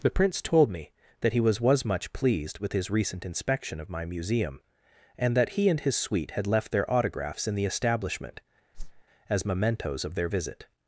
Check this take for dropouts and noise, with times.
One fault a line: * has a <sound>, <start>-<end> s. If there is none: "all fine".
* has a whoosh, 8.7-9.0 s